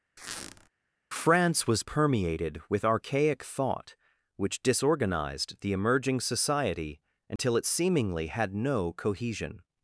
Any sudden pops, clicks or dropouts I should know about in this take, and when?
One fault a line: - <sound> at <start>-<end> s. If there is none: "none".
- squeak at 0.2-0.7 s
- dropout at 7.4-7.4 s